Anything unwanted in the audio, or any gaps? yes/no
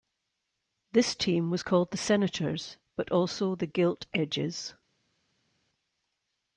no